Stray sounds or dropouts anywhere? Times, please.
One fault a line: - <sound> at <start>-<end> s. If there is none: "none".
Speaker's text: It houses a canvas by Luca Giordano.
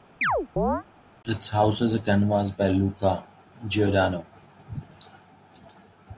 - chirp at 0.2-0.8 s